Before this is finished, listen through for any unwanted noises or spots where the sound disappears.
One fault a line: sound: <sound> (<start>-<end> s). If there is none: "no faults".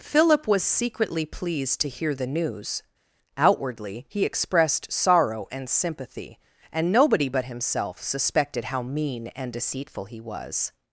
no faults